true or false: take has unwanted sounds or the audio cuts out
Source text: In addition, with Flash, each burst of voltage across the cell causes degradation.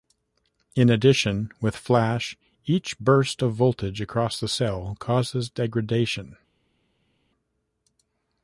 false